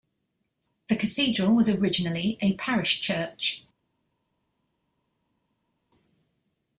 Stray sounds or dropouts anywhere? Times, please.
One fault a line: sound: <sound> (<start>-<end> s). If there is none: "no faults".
no faults